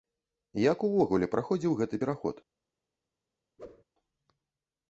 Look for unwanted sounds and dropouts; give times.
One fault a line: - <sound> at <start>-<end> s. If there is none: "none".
- whoosh at 3.6-3.8 s